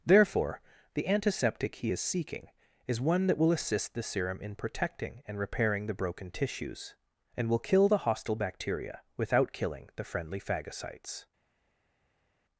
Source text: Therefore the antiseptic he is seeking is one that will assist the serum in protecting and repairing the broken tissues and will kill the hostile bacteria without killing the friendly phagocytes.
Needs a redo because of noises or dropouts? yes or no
no